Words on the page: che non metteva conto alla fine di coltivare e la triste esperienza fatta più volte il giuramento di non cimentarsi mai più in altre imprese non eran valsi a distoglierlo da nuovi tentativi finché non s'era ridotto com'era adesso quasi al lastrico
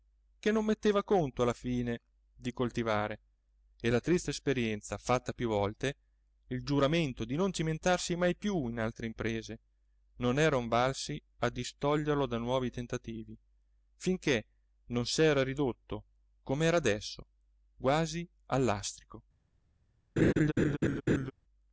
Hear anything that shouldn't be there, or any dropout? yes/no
yes